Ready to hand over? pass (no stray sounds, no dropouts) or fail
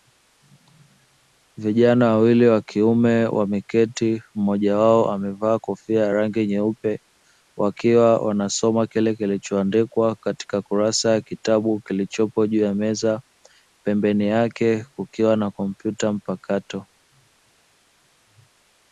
pass